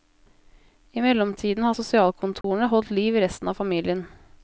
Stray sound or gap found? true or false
true